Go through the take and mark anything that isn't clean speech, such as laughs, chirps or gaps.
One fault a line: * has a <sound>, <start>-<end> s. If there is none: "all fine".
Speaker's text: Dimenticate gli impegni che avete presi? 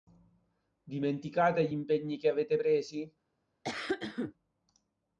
* has a cough, 3.6-4.3 s